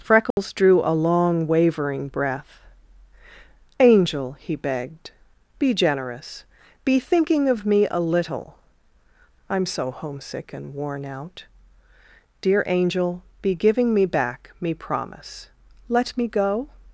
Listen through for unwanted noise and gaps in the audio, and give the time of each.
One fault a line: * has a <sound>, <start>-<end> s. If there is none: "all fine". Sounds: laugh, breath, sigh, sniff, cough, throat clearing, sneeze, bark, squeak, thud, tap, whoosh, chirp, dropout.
* has a dropout, 0.3-0.4 s